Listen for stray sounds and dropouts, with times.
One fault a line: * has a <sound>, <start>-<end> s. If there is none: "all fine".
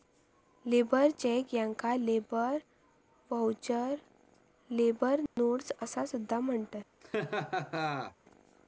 * has a dropout, 5.3-5.4 s
* has a laugh, 7.0-8.2 s